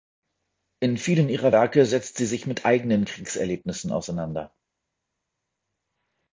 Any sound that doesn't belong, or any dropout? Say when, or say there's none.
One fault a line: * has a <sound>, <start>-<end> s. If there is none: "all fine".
all fine